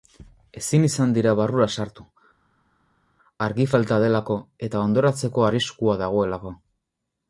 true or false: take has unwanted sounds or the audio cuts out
false